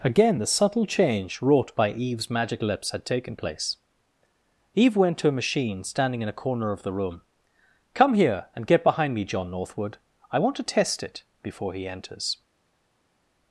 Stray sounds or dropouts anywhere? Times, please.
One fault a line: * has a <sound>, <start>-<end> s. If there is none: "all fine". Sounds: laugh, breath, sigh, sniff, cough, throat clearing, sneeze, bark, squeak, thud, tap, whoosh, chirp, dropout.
all fine